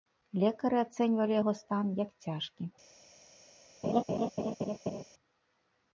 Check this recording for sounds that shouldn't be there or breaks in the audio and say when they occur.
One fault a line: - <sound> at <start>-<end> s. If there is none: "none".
- laugh at 3.8-5.0 s